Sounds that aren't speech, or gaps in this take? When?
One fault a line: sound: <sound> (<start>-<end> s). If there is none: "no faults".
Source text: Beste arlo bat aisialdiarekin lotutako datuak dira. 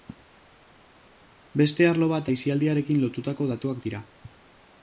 no faults